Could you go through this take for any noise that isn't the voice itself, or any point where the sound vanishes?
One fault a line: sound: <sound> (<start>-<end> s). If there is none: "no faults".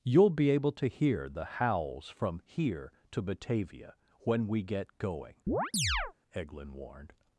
sound: chirp (5.5-6.1 s)